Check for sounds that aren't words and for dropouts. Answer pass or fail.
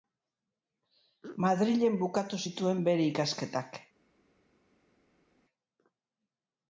pass